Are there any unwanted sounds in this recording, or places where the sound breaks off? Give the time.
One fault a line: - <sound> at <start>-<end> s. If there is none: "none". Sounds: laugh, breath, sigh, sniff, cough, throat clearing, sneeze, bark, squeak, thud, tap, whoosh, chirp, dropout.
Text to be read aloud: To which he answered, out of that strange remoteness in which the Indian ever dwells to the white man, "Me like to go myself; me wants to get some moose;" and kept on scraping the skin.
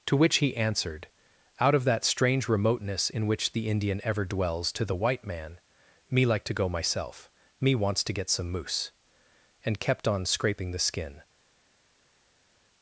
none